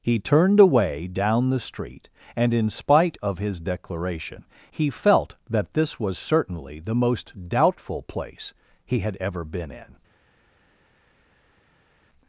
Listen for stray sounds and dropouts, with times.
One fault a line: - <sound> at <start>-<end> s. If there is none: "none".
none